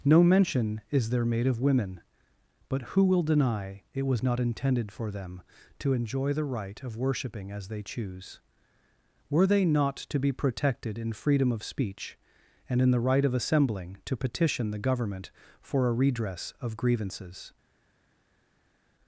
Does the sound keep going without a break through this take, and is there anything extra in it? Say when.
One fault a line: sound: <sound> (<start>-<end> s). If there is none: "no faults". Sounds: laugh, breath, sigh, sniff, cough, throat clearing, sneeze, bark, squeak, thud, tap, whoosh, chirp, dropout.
no faults